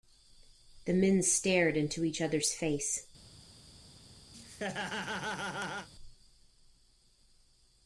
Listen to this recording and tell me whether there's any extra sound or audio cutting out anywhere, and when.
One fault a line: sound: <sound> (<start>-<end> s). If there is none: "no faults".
sound: laugh (4.3-5.9 s)